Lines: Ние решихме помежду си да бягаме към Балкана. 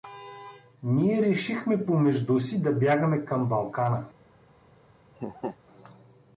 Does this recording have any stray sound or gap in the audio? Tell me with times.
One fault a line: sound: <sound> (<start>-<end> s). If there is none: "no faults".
sound: laugh (5.2-5.6 s)